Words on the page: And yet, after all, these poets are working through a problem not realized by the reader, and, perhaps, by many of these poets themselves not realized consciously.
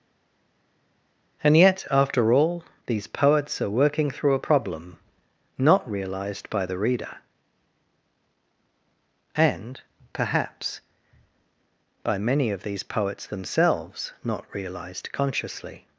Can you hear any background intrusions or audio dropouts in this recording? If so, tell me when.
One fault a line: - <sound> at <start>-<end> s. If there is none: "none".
none